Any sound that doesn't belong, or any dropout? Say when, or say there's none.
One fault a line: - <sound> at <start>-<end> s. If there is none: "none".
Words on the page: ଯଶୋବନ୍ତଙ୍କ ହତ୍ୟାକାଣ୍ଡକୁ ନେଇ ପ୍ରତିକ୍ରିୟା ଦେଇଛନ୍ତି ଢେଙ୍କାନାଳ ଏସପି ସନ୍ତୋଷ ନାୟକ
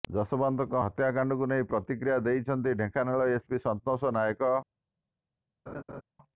- laugh at 5.7-6.0 s